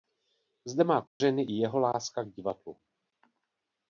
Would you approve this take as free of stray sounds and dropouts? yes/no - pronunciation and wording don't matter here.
no